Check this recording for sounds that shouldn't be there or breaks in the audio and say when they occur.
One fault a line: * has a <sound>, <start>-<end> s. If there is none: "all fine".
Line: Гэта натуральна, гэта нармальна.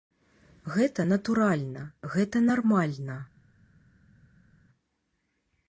all fine